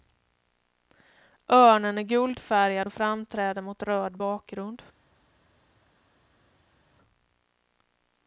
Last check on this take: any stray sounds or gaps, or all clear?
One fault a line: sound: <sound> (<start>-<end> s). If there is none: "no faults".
no faults